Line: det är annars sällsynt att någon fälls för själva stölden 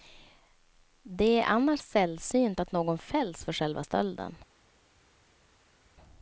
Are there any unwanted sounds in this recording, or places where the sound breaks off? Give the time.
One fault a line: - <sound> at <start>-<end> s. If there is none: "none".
none